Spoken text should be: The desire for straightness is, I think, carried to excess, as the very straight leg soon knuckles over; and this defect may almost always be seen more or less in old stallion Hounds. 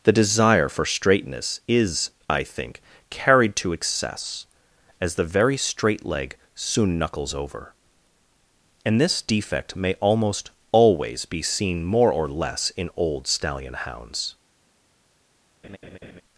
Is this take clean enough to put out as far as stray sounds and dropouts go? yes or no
no